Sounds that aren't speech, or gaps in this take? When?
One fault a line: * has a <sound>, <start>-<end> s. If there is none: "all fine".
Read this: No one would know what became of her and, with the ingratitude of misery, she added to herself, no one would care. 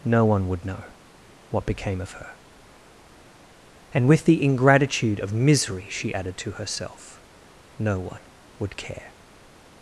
all fine